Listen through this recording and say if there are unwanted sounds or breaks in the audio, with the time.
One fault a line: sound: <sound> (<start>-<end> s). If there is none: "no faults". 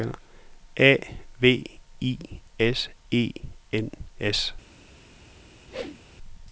sound: whoosh (5.7-6.0 s)